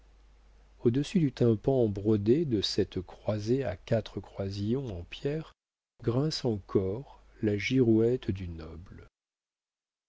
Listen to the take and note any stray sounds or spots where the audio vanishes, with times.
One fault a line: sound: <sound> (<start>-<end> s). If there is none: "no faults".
no faults